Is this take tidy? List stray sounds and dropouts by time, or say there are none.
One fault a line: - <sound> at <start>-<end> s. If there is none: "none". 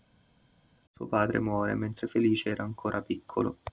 none